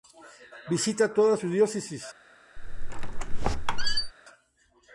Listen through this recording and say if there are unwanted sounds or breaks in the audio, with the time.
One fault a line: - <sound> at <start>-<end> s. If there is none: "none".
- squeak at 2.6-4.1 s